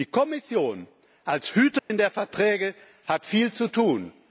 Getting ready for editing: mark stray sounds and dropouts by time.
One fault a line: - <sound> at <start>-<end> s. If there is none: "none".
- dropout at 1.8-1.9 s